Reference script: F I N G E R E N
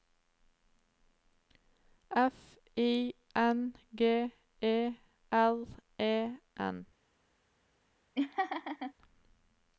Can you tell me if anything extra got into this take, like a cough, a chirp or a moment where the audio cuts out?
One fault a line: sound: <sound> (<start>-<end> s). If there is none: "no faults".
sound: laugh (8.1-8.9 s)